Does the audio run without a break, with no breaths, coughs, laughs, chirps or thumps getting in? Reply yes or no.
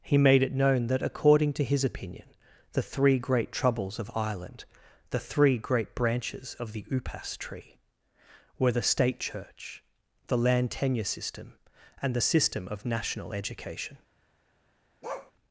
no